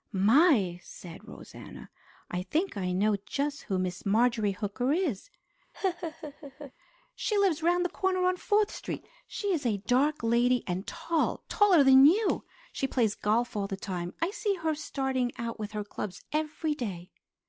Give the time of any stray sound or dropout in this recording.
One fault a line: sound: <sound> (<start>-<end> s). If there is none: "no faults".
sound: laugh (5.7-6.7 s)